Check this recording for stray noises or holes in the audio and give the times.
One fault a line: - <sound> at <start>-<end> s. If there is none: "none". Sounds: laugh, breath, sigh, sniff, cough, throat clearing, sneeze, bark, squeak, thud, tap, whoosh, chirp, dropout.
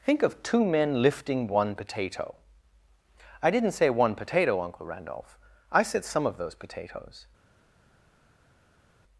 none